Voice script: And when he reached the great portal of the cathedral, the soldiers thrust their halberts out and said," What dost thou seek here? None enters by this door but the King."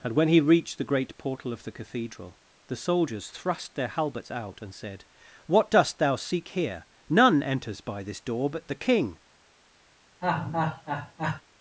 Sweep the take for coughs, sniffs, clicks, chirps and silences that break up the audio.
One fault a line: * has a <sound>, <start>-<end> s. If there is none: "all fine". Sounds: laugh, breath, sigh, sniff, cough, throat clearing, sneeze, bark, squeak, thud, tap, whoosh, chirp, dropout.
* has a laugh, 10.2-11.4 s